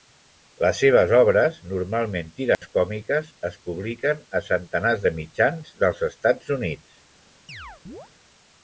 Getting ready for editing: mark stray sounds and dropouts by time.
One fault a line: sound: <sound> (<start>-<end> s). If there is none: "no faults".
sound: dropout (2.5-2.6 s)
sound: chirp (7.5-8.1 s)